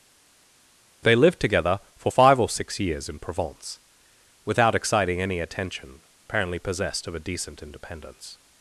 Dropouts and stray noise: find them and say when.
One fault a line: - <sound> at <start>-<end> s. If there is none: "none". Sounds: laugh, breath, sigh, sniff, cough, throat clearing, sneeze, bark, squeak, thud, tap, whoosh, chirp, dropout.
none